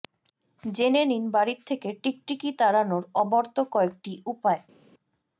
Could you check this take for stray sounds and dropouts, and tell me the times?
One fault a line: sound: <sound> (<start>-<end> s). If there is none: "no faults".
no faults